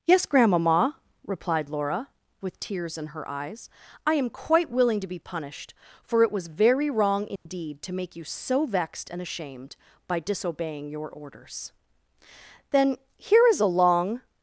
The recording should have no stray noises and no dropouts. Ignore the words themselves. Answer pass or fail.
fail